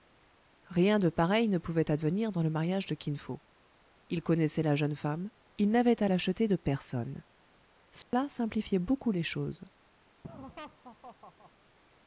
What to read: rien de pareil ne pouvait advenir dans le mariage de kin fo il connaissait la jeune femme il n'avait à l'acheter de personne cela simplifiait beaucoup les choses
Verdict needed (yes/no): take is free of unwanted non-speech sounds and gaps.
no